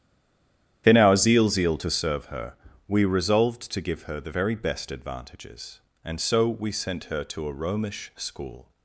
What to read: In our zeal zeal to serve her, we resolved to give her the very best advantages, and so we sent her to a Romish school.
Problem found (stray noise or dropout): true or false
false